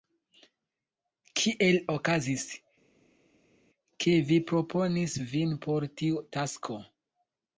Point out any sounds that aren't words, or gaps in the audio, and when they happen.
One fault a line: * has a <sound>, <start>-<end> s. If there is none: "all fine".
all fine